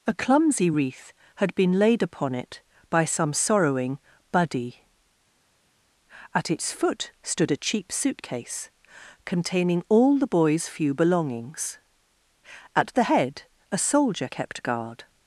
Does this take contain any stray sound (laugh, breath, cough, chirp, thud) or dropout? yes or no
no